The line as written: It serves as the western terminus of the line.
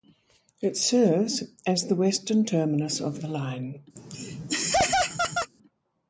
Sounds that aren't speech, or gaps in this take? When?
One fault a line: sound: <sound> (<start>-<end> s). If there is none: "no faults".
sound: laugh (4.0-5.5 s)